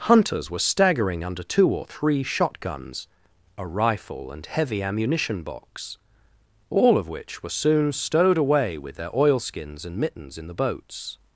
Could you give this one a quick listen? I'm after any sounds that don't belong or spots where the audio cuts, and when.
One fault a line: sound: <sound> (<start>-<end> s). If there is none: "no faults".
no faults